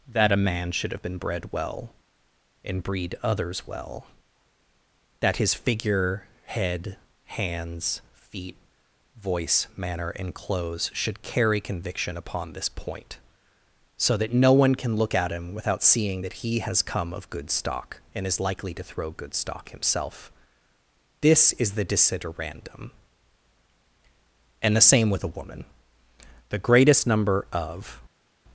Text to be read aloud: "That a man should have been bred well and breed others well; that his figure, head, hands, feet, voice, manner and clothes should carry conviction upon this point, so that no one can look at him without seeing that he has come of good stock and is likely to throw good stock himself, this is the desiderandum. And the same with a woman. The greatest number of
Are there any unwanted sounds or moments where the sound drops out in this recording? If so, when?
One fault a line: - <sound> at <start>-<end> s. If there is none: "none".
none